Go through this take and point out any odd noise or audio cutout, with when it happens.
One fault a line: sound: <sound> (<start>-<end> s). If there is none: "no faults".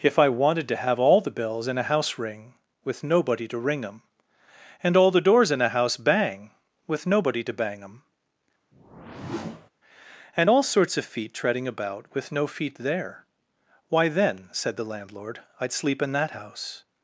sound: whoosh (8.7-9.7 s)